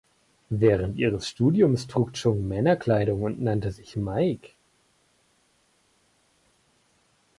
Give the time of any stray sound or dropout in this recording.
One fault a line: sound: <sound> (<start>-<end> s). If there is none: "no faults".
no faults